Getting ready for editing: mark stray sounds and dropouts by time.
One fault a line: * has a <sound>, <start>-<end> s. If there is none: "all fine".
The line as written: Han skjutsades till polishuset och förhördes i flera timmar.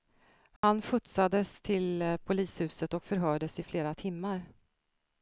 * has a dropout, 0.6-0.6 s